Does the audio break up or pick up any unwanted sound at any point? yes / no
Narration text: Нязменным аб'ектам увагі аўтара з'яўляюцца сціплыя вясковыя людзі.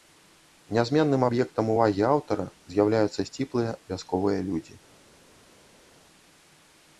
no